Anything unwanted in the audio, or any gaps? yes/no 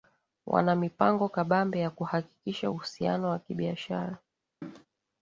yes